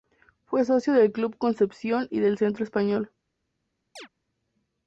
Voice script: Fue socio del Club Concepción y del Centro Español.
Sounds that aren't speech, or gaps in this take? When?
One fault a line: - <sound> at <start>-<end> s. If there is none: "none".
- chirp at 4.0-4.1 s